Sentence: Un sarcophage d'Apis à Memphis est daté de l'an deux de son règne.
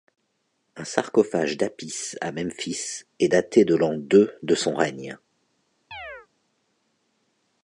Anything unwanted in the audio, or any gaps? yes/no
yes